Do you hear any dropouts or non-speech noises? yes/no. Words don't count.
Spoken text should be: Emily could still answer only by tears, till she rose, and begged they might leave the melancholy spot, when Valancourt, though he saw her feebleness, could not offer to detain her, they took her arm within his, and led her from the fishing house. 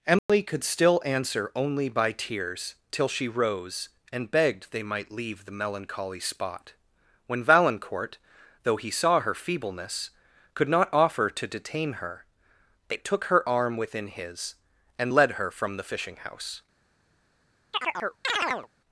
yes